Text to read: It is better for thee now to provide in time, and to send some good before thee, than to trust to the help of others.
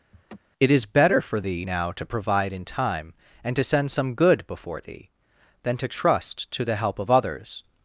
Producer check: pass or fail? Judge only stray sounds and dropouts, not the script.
fail